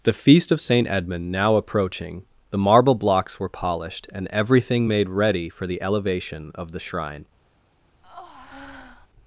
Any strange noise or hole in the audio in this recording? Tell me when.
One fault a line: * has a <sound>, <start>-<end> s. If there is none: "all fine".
* has a breath, 8.0-9.1 s